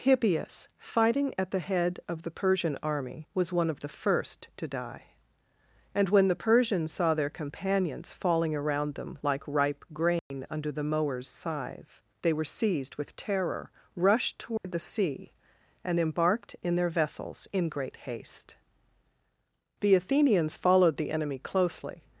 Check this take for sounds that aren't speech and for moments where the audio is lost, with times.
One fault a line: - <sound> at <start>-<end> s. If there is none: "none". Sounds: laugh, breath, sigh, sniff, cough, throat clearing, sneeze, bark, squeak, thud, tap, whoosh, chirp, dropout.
- dropout at 10.2-10.3 s
- dropout at 14.6-14.6 s